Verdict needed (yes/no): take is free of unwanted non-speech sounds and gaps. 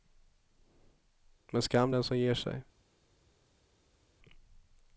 yes